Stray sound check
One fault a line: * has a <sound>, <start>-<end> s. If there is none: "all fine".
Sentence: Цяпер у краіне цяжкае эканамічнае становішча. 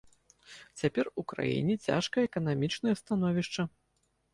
all fine